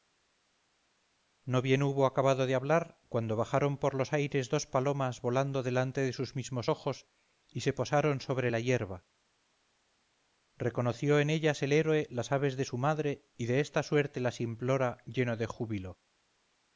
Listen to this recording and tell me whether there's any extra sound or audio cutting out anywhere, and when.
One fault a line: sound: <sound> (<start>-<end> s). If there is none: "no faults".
no faults